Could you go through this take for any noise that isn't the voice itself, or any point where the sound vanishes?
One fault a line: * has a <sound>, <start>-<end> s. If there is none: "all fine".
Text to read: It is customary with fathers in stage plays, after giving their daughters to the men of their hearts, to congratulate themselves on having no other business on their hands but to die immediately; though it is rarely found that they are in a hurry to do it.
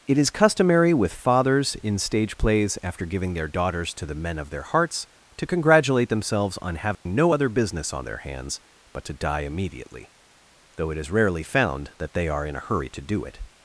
* has a dropout, 6.9-7.1 s